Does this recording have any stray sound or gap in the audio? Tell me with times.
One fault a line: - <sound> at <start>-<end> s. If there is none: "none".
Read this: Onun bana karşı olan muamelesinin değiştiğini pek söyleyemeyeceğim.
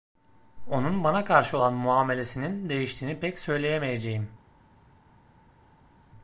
none